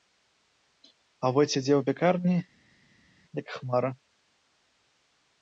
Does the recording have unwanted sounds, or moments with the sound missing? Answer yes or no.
no